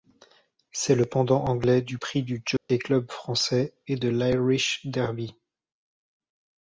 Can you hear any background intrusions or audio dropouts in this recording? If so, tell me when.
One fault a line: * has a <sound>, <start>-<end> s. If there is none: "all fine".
* has a dropout, 2.6-2.7 s